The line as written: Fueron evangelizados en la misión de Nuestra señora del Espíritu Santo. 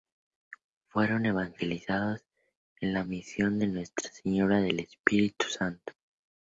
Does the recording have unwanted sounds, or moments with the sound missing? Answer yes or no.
no